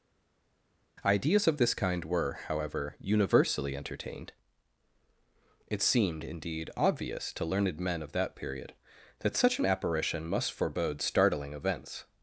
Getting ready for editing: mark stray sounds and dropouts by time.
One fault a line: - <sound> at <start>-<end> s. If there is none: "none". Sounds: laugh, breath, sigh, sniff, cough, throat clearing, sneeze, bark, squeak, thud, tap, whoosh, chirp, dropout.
none